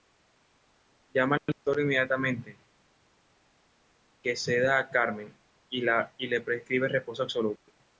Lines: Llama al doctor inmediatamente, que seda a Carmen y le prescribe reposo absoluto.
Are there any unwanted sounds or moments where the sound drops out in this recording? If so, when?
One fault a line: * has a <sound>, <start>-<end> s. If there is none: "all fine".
all fine